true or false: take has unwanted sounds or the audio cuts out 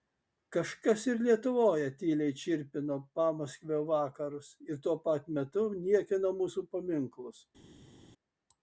false